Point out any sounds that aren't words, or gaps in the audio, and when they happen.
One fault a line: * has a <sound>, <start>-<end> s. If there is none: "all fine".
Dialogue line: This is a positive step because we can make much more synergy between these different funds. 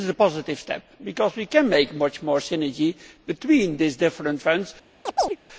* has a chirp, 5.1-5.4 s